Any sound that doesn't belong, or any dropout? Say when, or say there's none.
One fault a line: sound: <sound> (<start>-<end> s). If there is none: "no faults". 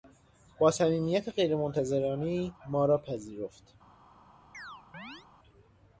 sound: chirp (4.5-5.3 s)